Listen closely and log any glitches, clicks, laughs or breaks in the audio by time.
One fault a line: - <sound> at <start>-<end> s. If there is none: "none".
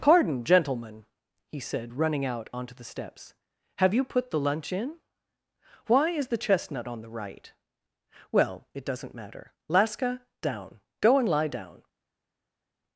none